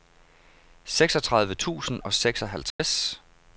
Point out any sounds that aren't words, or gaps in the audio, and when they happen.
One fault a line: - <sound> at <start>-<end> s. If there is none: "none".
- dropout at 2.7-2.8 s